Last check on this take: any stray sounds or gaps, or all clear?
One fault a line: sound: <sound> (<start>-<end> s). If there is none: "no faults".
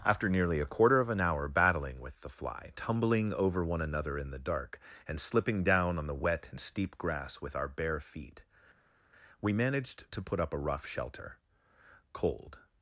no faults